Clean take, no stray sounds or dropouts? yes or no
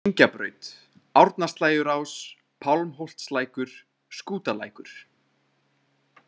yes